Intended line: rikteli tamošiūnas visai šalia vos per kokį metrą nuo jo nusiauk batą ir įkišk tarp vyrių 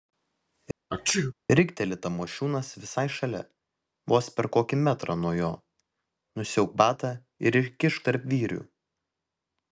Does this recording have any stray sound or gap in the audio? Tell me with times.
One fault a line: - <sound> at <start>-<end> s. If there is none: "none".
- sneeze at 0.9-1.3 s